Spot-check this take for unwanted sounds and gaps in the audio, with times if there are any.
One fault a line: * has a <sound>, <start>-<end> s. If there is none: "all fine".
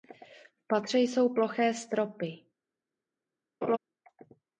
* has a laugh, 3.6-3.8 s